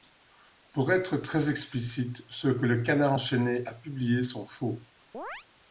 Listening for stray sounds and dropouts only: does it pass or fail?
fail